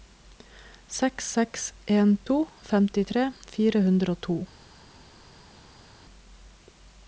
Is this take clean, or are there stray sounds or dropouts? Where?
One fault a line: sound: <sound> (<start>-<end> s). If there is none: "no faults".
no faults